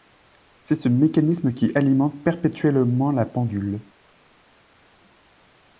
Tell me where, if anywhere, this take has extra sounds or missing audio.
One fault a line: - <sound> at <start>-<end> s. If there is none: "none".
none